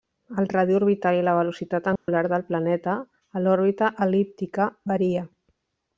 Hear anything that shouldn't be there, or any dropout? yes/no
yes